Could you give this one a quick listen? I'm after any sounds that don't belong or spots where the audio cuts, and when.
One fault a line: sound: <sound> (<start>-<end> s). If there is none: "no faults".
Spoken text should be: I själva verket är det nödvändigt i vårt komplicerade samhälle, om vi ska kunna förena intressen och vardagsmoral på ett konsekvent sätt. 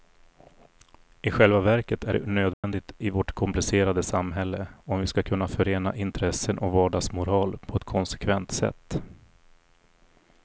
sound: dropout (2.5-2.6 s)